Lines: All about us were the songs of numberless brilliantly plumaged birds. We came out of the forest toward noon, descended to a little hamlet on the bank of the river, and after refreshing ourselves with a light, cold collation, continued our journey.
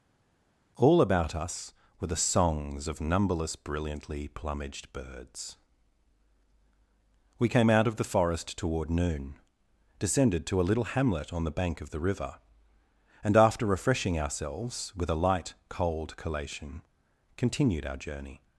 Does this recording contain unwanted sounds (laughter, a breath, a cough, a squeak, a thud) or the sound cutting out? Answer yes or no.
no